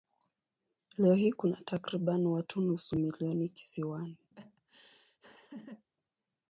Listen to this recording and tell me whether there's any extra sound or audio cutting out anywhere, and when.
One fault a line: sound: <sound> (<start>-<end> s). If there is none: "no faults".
sound: laugh (4.3-5.9 s)